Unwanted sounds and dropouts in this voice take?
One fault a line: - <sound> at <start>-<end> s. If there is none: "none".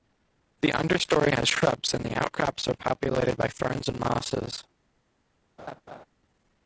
- laugh at 5.6-6.1 s